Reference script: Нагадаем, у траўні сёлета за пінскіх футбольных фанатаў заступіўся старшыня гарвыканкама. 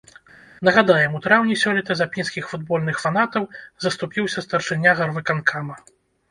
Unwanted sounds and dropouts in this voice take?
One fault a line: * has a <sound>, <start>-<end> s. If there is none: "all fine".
all fine